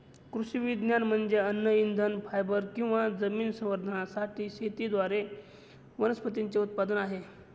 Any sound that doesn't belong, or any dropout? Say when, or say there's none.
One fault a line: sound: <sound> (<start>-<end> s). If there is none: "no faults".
no faults